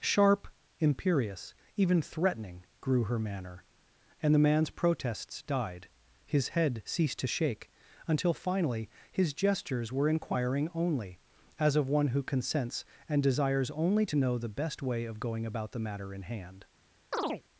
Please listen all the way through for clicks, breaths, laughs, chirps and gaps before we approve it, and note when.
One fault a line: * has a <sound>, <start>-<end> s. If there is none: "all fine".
* has a chirp, 17.1-17.4 s